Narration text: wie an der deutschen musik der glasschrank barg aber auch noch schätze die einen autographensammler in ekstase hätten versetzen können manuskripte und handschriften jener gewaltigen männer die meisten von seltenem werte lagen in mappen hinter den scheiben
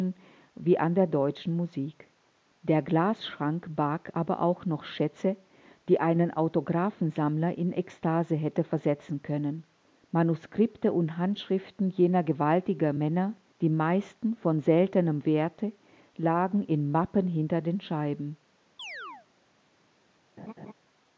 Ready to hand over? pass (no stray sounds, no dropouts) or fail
fail